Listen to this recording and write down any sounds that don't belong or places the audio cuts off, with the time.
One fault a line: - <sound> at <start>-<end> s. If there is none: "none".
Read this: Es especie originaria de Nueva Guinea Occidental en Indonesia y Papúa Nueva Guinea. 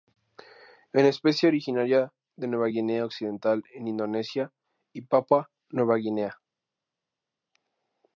none